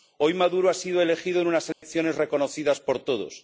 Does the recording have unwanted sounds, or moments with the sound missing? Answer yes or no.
yes